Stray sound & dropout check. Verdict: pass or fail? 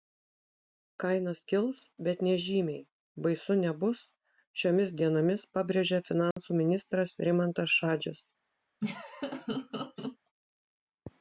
fail